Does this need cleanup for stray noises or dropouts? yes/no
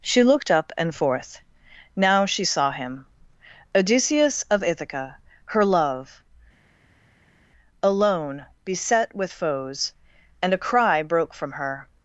no